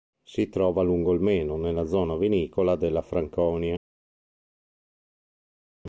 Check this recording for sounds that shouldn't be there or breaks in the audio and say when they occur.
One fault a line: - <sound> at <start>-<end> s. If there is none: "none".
none